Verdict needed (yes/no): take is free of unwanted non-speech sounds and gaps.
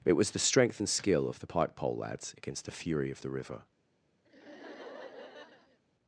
no